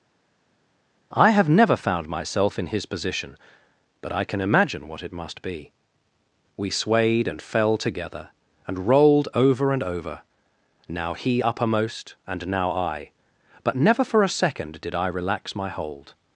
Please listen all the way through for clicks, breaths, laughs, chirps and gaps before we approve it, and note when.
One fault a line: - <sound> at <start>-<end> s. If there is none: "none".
none